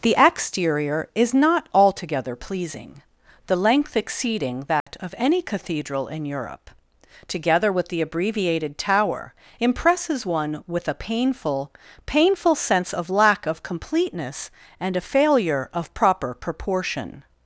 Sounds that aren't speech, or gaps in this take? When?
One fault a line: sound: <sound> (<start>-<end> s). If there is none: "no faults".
sound: dropout (4.8-4.9 s)